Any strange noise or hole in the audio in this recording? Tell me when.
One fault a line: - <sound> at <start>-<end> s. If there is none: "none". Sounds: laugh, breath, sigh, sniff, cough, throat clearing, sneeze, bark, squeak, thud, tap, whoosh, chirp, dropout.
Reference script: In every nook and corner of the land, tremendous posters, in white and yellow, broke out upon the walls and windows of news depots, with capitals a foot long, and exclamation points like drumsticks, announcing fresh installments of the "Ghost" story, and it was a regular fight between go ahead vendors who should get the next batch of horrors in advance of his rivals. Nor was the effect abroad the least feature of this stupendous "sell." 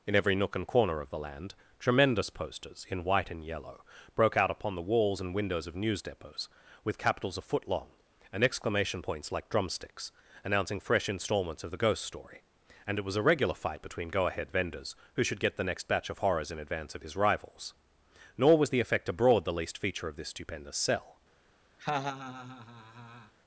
- laugh at 21.8-23.3 s